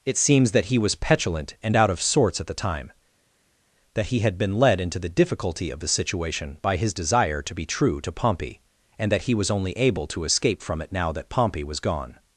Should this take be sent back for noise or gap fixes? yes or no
no